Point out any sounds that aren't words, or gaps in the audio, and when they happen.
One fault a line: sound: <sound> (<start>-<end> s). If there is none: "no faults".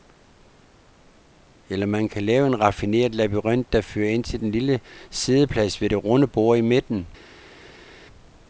no faults